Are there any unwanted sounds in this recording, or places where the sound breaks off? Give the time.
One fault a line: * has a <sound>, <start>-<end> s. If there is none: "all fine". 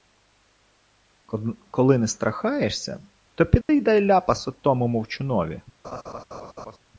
* has a dropout, 3.6-3.7 s
* has a laugh, 5.8-6.8 s